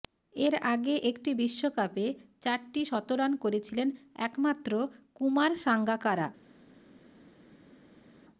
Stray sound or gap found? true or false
false